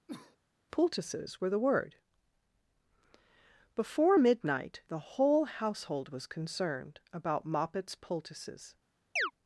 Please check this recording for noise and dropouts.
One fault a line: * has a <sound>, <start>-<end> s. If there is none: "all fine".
* has a cough, 0.1-0.4 s
* has a chirp, 9.2-9.3 s